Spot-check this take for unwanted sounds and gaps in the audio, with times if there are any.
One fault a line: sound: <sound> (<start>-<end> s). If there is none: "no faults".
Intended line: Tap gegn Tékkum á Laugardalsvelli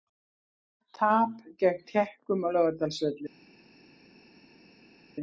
no faults